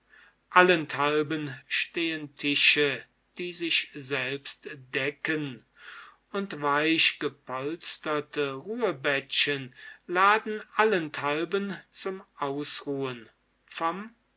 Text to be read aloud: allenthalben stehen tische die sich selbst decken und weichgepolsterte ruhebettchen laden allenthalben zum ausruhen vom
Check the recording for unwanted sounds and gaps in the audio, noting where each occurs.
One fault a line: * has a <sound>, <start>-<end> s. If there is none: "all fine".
all fine